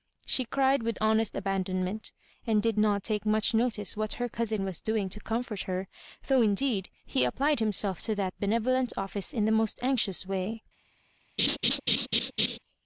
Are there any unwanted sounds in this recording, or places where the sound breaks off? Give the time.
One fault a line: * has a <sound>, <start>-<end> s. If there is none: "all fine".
* has a laugh, 11.4-12.6 s